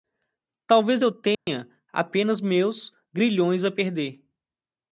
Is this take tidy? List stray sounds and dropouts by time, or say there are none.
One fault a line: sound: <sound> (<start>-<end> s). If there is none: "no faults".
sound: dropout (1.3-1.5 s)